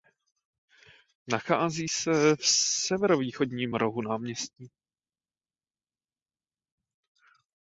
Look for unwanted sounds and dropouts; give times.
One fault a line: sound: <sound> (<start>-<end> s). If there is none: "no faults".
no faults